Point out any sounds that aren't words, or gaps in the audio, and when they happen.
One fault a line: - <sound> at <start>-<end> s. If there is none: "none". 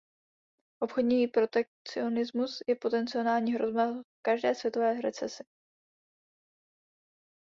none